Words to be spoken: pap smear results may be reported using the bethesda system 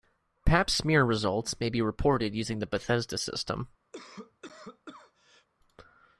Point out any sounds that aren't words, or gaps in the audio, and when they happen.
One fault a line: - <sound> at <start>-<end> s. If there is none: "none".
- cough at 3.9-5.5 s